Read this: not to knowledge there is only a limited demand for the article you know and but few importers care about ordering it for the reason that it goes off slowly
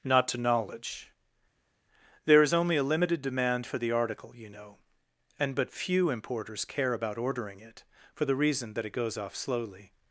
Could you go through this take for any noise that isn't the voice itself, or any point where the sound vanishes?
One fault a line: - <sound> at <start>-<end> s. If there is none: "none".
none